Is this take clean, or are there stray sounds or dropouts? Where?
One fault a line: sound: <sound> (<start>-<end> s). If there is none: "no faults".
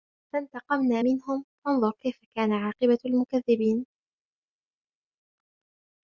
no faults